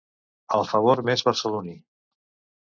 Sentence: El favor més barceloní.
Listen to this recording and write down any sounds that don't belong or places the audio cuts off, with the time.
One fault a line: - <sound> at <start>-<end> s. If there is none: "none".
none